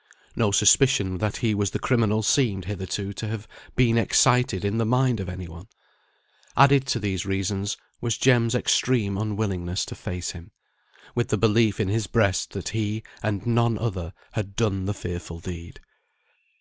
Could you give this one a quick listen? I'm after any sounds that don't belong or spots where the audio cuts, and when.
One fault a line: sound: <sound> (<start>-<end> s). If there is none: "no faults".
no faults